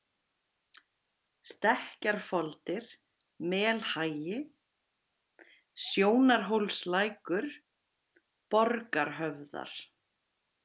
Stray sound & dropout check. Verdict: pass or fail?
pass